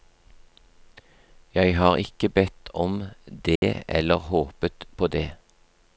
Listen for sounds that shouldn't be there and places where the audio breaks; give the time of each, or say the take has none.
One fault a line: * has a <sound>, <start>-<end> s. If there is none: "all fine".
* has a dropout, 3.6-3.6 s